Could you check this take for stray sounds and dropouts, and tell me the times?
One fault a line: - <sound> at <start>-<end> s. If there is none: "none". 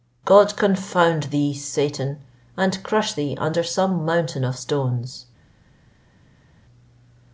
none